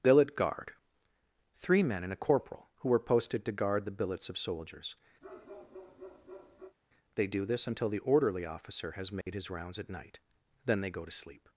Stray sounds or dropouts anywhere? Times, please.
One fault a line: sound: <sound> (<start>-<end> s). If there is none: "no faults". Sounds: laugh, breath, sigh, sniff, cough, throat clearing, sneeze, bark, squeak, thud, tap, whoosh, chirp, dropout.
sound: bark (5.2-6.8 s)
sound: dropout (9.2-9.3 s)